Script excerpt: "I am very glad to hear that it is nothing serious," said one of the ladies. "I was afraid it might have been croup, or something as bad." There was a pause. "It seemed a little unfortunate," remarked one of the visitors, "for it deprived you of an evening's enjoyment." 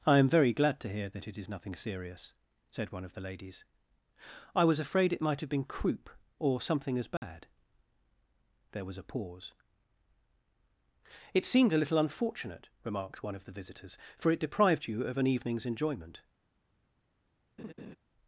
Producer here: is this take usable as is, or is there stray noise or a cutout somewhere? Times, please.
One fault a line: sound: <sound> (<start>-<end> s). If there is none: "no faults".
sound: dropout (7.2-7.2 s)
sound: laugh (17.6-18.0 s)